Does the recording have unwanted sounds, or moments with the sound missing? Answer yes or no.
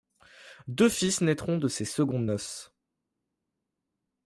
no